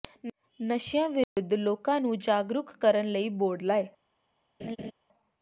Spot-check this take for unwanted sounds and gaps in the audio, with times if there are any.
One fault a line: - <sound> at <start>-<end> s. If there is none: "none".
- dropout at 1.2-1.4 s
- laugh at 4.6-4.9 s